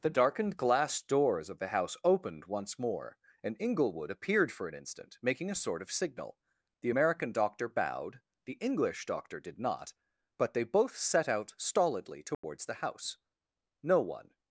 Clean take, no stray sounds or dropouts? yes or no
no